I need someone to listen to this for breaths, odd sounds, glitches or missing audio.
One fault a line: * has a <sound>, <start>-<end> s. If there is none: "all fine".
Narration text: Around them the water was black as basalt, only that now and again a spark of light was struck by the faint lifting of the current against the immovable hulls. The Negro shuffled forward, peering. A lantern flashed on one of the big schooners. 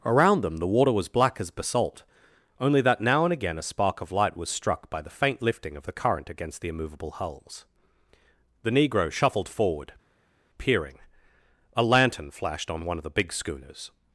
all fine